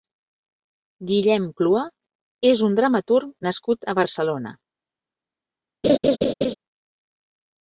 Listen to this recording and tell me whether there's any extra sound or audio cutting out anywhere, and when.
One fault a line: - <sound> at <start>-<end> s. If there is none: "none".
- laugh at 5.8-6.5 s